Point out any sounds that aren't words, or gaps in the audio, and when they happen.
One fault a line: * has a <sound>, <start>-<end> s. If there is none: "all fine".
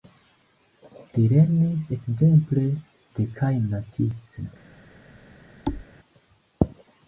* has a thud, 5.7-5.9 s